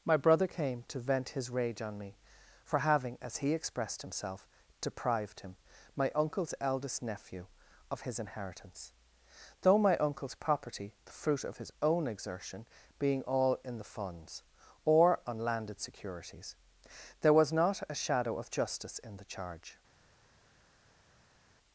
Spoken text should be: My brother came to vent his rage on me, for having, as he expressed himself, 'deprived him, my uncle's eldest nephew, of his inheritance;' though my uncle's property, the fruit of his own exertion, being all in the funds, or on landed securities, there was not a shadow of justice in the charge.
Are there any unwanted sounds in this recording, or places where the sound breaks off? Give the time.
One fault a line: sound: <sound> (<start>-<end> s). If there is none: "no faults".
no faults